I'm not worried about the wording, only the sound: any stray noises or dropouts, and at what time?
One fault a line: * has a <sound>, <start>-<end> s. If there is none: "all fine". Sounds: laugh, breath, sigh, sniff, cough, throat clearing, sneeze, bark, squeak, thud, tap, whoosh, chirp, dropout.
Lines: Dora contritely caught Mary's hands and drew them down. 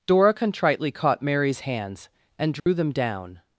* has a dropout, 2.6-2.7 s